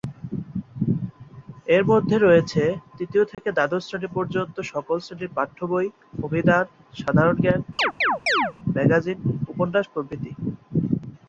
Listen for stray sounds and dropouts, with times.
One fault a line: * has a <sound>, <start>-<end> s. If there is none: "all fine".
* has a dropout, 3.3-3.4 s
* has a chirp, 7.8-8.5 s